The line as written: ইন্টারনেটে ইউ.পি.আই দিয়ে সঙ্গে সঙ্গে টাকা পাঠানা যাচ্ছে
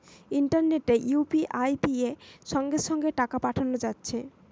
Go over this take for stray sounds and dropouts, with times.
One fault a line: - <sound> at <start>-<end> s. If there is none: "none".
none